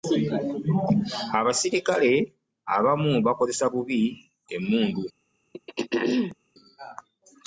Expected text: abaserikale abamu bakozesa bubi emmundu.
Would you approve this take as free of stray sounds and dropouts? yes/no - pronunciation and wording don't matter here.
no